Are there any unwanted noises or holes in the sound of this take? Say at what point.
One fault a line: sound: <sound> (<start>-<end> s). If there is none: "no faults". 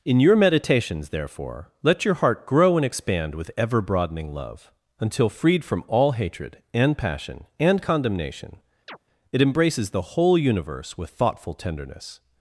sound: chirp (8.9-9.0 s)